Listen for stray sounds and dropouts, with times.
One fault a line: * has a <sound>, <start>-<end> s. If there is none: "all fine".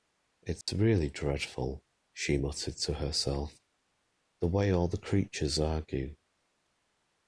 * has a dropout, 0.6-0.7 s